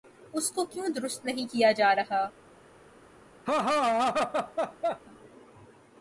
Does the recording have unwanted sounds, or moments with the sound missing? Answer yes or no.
yes